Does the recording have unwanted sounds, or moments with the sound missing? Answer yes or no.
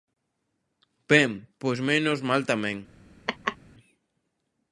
yes